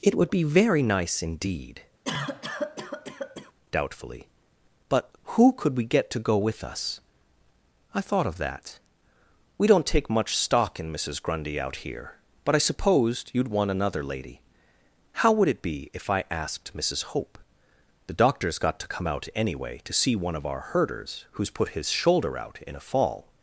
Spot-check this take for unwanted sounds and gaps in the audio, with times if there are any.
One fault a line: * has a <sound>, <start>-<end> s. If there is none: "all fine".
* has a cough, 2.0-3.5 s